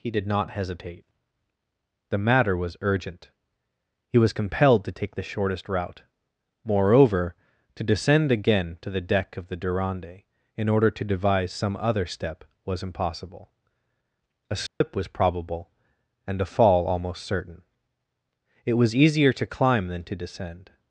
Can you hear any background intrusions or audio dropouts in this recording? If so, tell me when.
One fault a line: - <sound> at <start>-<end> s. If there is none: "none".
- dropout at 14.7-14.8 s